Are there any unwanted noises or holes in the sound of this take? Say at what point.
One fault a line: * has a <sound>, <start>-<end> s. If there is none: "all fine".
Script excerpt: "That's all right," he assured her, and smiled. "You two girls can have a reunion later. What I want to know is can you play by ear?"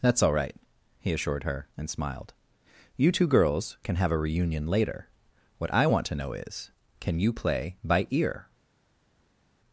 all fine